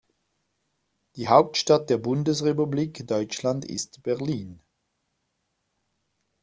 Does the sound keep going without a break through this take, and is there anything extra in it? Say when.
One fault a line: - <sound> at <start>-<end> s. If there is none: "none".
none